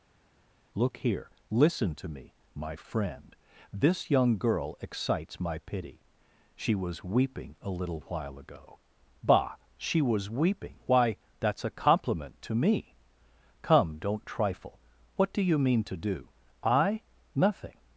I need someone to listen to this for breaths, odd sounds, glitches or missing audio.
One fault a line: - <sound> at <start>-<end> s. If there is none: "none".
none